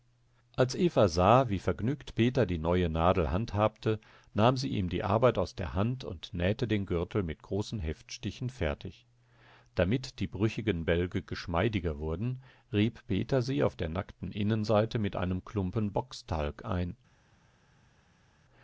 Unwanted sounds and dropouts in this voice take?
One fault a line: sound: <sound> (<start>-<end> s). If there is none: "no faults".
no faults